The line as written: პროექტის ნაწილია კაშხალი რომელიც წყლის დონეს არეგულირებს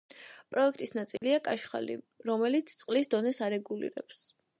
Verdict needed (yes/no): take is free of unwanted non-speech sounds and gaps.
no